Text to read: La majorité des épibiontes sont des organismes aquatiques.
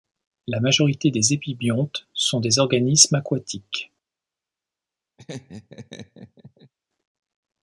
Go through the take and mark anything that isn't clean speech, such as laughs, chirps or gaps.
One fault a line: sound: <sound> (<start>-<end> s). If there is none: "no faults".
sound: laugh (5.2-6.7 s)